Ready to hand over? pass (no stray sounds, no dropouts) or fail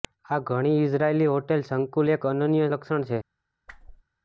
fail